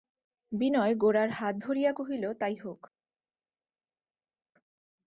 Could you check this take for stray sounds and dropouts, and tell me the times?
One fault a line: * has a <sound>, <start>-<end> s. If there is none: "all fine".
all fine